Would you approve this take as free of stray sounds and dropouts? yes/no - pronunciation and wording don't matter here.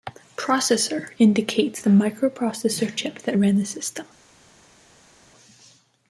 yes